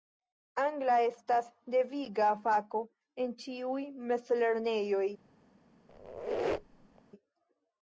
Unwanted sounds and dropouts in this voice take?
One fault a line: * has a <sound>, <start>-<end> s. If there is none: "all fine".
* has a squeak, 5.9-7.0 s